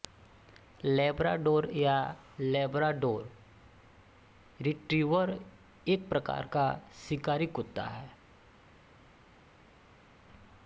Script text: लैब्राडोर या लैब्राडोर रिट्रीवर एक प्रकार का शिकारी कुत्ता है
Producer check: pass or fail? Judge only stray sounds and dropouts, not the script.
pass